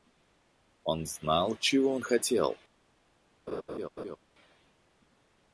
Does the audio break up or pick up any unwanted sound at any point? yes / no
yes